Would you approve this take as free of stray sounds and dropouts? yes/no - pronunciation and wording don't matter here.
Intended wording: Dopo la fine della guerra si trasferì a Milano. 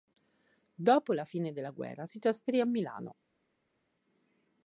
yes